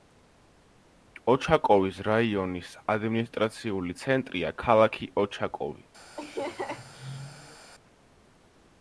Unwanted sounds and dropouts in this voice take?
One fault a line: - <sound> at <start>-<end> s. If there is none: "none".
- laugh at 6.2-7.7 s